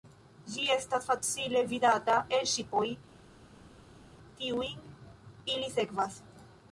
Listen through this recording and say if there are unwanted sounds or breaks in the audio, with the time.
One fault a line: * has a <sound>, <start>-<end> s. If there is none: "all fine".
all fine